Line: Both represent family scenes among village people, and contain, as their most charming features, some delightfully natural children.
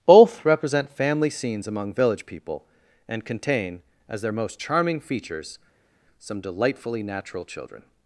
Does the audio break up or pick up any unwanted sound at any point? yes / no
no